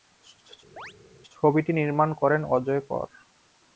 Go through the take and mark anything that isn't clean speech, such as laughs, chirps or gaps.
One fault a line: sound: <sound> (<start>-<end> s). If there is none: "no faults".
sound: chirp (0.8-0.9 s)